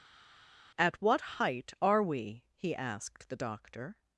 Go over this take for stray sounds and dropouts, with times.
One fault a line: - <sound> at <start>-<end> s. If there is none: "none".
none